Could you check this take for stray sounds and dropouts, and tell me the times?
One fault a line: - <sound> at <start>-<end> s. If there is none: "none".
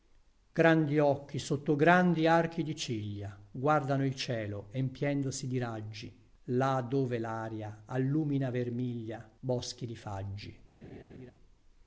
- laugh at 10.8-11.3 s